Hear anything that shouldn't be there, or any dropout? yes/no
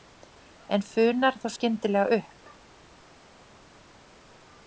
no